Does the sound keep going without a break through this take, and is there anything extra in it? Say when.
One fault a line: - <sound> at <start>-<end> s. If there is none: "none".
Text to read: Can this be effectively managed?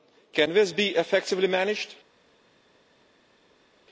none